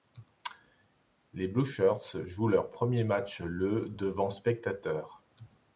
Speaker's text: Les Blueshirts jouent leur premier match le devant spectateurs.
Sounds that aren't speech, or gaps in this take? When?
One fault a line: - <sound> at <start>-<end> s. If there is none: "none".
none